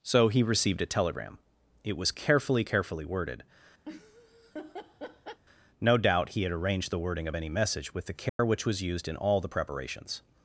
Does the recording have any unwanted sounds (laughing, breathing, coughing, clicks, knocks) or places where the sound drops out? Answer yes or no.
yes